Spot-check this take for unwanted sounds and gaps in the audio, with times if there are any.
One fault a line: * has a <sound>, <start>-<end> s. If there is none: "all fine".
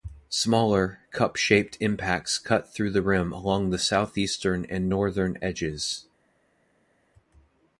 all fine